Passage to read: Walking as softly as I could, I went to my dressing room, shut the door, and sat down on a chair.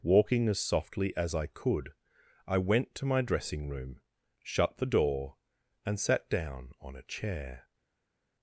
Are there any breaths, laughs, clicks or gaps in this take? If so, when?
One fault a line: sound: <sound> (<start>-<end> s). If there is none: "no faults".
no faults